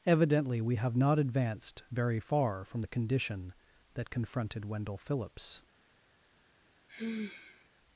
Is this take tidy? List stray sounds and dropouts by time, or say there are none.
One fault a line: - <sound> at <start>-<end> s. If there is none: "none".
- sigh at 6.9-7.7 s